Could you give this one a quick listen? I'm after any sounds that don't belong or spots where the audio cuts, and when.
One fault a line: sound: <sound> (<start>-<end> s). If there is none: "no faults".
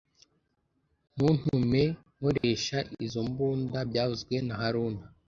sound: dropout (2.4-2.4 s)